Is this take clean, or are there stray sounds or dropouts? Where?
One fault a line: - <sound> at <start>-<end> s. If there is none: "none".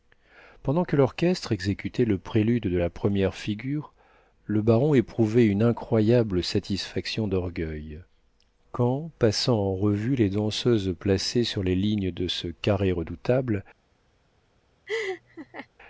- laugh at 14.9-15.7 s